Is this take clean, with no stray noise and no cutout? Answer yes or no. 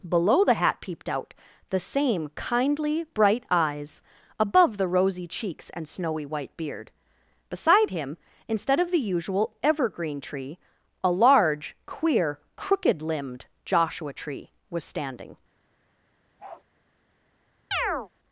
no